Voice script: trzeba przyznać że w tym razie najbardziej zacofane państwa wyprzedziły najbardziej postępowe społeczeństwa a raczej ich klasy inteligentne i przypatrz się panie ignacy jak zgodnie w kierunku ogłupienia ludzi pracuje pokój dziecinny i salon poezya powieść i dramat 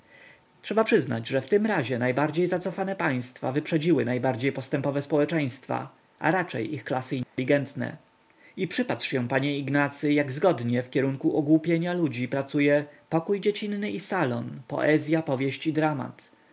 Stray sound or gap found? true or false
true